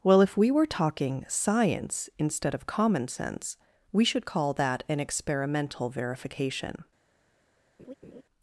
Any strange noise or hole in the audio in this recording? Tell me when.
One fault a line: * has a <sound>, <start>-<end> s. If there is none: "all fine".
* has a laugh, 7.8-8.2 s